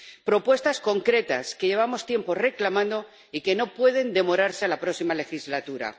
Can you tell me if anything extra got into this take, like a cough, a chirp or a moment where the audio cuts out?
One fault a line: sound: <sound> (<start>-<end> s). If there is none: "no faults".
no faults